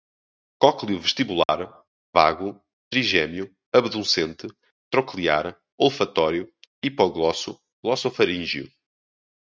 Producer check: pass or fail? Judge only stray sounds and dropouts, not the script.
fail